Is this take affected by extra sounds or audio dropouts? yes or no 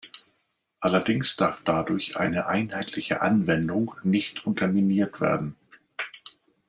no